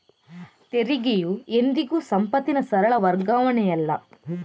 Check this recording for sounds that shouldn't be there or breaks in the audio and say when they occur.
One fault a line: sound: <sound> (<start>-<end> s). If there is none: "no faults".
no faults